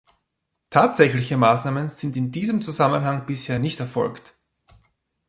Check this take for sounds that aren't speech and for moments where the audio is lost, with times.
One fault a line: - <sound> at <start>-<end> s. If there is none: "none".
none